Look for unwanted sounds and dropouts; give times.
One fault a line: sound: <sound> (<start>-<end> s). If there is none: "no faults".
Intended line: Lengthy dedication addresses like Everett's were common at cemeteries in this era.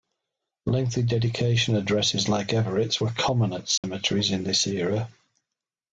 sound: dropout (3.8-3.8 s)